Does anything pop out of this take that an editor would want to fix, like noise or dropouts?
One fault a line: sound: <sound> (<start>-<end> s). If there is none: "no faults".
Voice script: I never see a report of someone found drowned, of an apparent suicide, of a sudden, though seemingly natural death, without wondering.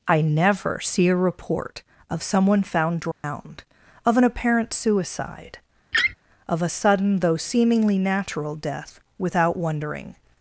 sound: dropout (3.1-3.2 s)
sound: laugh (5.9-6.1 s)